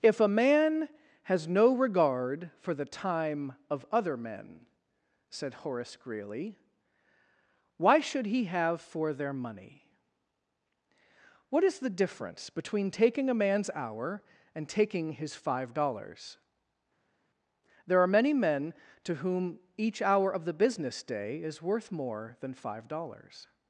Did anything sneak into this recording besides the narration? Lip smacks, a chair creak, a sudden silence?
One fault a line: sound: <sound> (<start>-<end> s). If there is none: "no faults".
no faults